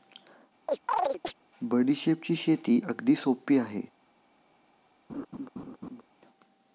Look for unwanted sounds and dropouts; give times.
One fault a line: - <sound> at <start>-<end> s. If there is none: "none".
- chirp at 0.7-1.3 s
- laugh at 5.1-6.0 s